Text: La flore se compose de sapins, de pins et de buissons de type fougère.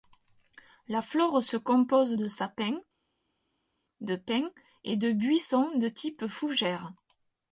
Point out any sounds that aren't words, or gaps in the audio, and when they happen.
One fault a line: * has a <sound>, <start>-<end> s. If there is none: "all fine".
all fine